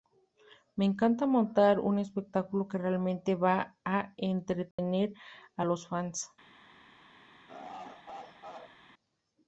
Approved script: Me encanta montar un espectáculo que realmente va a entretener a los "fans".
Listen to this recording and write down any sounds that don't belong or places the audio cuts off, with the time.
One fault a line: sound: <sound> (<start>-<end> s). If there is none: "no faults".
sound: dropout (4.7-4.8 s)
sound: laugh (7.5-8.8 s)